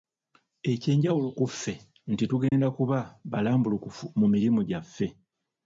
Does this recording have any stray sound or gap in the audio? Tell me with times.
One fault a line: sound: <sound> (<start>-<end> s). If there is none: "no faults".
sound: dropout (2.5-2.5 s)